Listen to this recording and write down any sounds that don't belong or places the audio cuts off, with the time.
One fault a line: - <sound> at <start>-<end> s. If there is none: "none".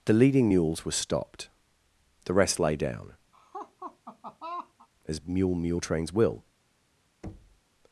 - laugh at 3.3-4.9 s
- thud at 7.2-7.6 s